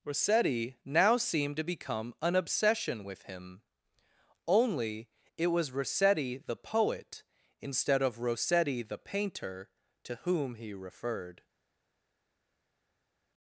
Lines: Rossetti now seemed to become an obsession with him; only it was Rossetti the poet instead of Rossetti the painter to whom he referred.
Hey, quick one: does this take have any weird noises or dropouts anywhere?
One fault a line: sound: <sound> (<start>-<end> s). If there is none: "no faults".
no faults